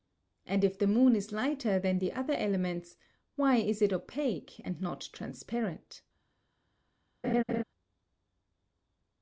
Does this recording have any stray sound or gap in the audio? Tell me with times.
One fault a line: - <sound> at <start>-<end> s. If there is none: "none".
- laugh at 7.2-7.6 s